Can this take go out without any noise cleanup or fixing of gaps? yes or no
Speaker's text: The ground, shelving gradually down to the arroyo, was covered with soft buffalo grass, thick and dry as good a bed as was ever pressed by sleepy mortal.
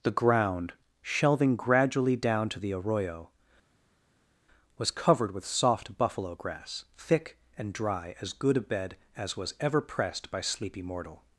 yes